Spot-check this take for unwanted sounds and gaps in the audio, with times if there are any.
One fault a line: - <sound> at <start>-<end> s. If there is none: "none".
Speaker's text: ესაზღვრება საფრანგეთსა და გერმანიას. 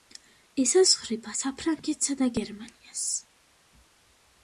none